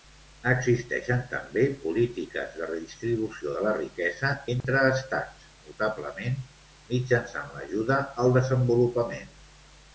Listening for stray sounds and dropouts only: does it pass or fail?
fail